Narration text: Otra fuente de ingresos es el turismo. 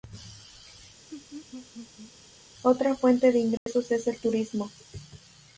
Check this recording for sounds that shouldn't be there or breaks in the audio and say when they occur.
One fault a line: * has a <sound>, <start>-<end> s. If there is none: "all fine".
* has a laugh, 1.1-2.1 s
* has a dropout, 3.6-3.7 s